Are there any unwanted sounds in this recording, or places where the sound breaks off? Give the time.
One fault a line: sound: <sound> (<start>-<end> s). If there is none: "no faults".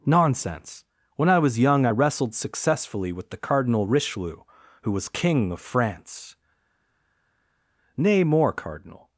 no faults